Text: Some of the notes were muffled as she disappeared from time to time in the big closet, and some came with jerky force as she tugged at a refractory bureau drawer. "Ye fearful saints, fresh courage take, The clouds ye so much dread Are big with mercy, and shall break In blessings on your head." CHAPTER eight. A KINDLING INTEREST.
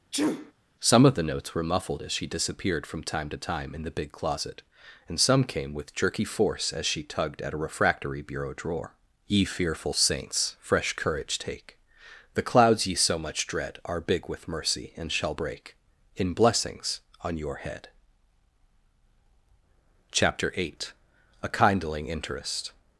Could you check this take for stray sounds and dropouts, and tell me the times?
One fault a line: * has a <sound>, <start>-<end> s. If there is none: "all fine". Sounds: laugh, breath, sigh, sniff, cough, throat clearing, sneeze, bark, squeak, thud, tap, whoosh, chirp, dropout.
* has a sneeze, 0.1-0.5 s